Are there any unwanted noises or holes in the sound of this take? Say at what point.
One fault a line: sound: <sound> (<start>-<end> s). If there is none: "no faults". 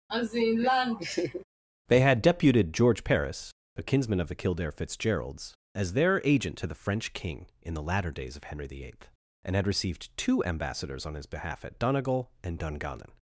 sound: laugh (0.1-1.4 s)